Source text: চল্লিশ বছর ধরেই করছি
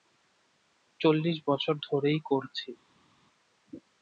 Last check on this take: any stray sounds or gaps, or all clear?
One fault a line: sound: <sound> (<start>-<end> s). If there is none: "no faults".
no faults